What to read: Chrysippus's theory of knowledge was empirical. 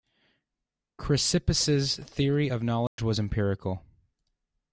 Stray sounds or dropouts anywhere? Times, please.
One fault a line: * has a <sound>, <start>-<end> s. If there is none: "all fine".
* has a dropout, 2.9-3.0 s